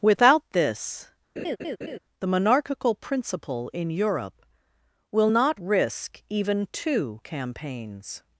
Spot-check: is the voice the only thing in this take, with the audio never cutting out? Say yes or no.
no